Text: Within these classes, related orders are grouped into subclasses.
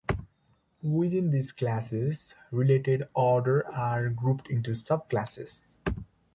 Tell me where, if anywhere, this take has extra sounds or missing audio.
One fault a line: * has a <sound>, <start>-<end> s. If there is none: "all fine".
all fine